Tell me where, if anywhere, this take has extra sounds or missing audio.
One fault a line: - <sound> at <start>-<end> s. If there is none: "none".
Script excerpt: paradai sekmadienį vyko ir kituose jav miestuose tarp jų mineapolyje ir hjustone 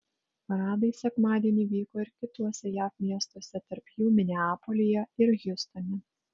none